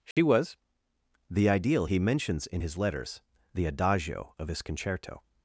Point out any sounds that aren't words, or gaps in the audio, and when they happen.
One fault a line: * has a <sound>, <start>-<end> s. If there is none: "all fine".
* has a dropout, 0.1-0.2 s